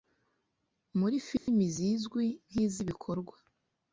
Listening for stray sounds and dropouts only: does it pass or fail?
fail